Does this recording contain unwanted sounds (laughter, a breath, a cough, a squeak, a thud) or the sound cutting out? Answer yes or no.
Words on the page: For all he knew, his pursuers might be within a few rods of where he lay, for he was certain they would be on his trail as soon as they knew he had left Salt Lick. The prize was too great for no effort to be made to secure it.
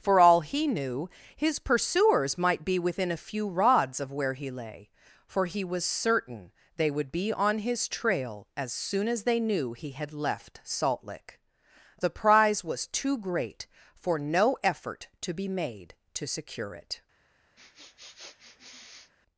yes